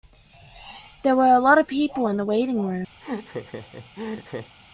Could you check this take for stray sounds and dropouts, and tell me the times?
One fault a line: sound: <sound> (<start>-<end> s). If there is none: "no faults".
sound: laugh (3.0-4.5 s)